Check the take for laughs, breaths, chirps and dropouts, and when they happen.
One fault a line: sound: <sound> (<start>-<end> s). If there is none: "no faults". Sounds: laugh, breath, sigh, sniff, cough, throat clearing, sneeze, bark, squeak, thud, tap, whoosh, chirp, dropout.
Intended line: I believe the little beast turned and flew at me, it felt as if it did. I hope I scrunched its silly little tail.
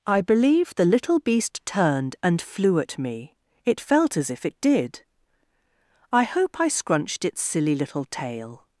no faults